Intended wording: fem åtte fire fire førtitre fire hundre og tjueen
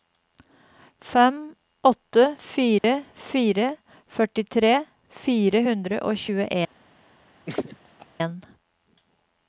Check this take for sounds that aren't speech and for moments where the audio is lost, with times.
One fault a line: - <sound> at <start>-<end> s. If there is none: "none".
- dropout at 2.8-2.8 s
- laugh at 7.5-8.1 s